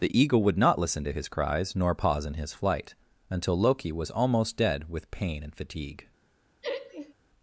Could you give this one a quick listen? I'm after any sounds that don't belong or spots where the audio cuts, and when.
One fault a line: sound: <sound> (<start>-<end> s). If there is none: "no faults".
sound: laugh (6.6-7.1 s)